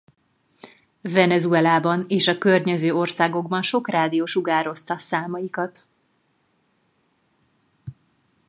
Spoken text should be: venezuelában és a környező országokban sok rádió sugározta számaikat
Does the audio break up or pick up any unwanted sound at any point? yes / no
no